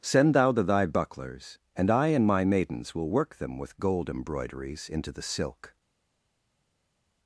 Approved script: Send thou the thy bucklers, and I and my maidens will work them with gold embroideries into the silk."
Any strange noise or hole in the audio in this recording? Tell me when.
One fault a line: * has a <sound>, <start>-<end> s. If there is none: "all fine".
all fine